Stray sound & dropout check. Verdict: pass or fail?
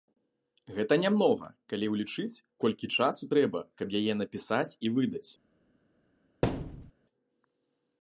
fail